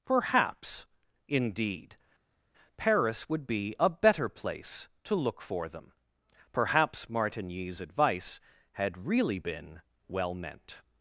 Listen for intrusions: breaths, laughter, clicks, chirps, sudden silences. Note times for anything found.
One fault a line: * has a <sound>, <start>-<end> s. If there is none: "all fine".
all fine